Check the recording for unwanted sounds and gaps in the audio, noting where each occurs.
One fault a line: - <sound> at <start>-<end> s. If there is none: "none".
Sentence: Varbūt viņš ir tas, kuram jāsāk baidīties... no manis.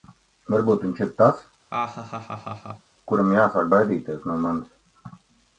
- laugh at 1.7-2.9 s